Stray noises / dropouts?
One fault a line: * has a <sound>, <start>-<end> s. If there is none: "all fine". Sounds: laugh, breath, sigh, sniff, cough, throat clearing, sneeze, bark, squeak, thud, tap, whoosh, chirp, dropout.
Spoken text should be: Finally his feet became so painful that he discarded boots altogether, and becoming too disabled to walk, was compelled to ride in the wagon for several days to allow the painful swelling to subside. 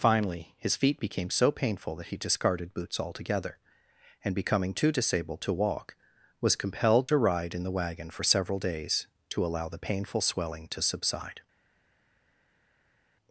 all fine